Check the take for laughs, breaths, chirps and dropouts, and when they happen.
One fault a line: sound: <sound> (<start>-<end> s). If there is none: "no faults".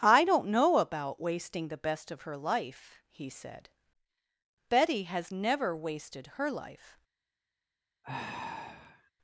sound: sigh (8.0-9.1 s)